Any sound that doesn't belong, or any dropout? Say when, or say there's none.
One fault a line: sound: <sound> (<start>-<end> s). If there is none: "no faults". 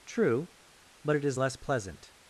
no faults